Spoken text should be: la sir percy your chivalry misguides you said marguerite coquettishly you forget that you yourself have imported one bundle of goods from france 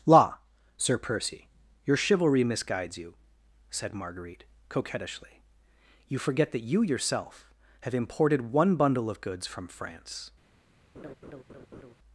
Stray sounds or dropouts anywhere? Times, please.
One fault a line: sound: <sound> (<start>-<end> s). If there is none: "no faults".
sound: laugh (10.9-11.9 s)